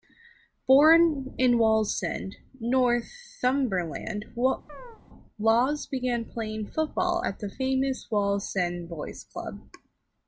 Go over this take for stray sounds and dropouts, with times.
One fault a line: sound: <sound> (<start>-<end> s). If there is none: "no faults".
sound: chirp (4.7-5.0 s)